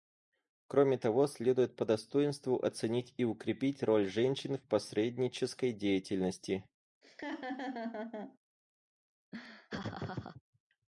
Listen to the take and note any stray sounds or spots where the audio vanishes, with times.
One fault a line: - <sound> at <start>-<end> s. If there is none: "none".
- laugh at 7.0-8.4 s
- laugh at 9.3-10.4 s